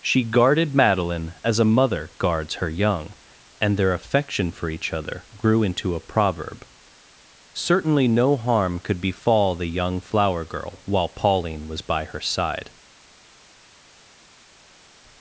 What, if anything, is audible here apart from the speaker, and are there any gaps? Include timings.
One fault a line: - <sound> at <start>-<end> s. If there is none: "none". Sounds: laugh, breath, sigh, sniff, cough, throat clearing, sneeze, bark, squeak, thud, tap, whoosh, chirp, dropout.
none